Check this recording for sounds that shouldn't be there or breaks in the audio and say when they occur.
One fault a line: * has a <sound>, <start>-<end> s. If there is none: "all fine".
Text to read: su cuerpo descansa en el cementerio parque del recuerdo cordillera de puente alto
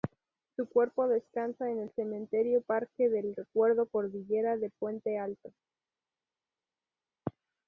all fine